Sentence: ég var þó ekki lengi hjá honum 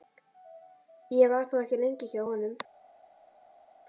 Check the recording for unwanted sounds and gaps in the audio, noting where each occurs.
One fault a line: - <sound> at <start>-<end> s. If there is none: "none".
none